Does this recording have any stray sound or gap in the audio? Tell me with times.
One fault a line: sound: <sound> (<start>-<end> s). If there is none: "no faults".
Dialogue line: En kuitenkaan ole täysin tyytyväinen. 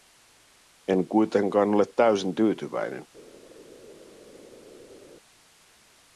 no faults